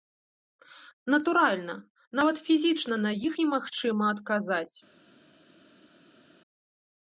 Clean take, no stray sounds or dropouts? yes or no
yes